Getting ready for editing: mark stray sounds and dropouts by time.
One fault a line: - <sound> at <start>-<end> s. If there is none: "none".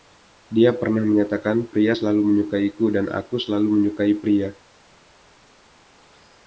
none